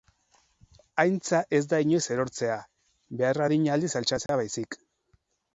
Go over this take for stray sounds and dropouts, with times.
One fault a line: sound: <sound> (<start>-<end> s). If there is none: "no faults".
sound: dropout (4.3-4.3 s)